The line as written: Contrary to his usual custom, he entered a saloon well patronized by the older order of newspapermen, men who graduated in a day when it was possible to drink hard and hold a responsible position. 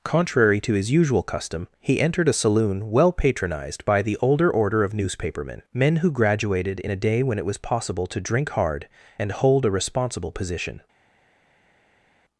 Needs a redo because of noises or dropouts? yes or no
no